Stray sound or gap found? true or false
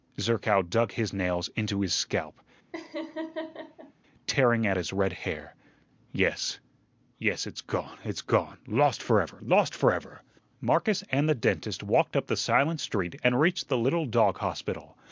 true